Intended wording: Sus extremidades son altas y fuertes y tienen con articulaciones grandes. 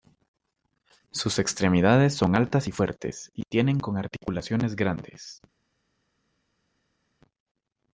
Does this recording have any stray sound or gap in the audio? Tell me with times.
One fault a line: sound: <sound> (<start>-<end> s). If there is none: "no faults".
no faults